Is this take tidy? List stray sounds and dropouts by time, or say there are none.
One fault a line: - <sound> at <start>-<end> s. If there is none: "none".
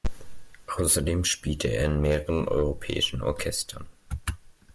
none